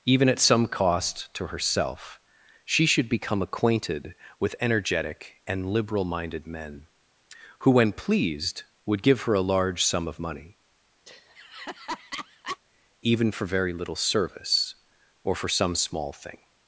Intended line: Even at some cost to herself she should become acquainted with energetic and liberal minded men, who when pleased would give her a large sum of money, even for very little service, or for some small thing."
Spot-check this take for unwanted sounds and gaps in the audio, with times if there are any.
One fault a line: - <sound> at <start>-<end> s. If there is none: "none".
- laugh at 11.1-12.6 s